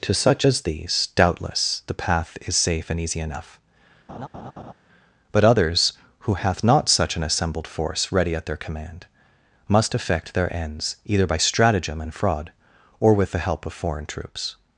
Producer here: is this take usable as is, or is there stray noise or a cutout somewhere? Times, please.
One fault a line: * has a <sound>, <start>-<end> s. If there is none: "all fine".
* has a laugh, 4.1-4.7 s